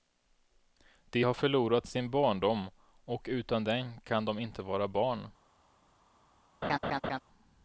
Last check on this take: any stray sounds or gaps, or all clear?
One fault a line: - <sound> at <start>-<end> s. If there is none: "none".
- laugh at 6.6-7.2 s